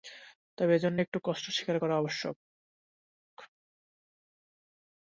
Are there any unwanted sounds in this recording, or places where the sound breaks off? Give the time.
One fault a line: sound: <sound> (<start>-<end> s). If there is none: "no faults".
no faults